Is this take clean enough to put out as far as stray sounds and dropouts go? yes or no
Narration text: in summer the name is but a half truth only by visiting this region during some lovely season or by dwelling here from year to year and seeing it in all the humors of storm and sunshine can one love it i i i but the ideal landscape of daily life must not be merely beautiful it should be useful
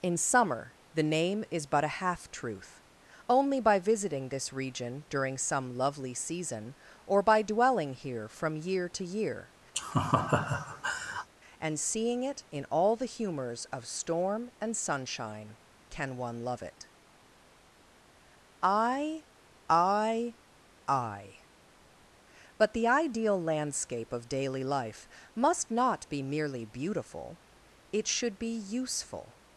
no